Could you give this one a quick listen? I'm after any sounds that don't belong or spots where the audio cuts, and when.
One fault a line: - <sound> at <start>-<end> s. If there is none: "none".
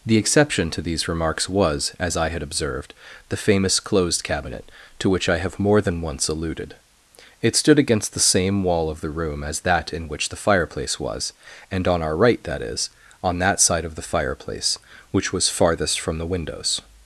none